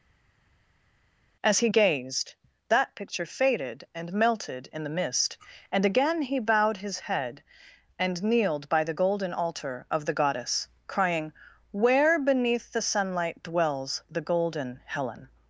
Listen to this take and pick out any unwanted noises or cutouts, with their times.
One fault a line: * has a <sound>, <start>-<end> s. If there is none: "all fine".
all fine